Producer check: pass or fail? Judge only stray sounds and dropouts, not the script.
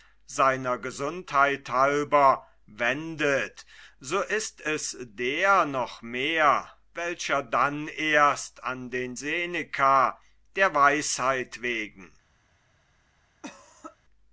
fail